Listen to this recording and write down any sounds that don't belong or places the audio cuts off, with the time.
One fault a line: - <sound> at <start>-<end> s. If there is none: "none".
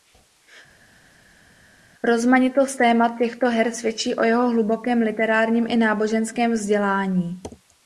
none